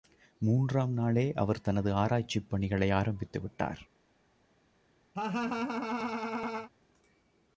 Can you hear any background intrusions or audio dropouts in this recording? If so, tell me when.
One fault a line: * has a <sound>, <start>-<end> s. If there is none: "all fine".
* has a laugh, 5.2-6.7 s